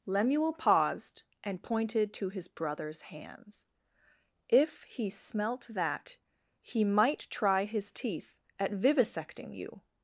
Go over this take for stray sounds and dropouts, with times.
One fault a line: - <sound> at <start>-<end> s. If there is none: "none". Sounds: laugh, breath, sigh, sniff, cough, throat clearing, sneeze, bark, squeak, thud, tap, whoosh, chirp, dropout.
none